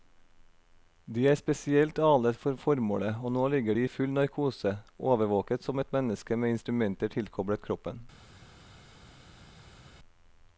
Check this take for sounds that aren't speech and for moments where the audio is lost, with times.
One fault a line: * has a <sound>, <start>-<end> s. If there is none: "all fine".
all fine